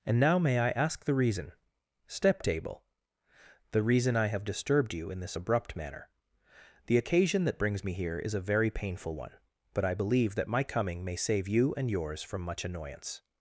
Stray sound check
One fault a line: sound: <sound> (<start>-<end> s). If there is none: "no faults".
no faults